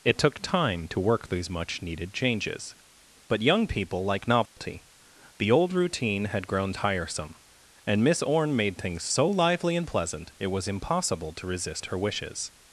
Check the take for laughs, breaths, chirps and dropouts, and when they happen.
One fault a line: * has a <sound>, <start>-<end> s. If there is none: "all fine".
* has a dropout, 4.5-4.6 s